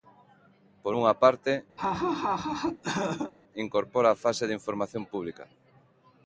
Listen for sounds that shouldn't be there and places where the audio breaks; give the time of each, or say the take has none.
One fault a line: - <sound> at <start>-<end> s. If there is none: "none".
- laugh at 1.8-3.3 s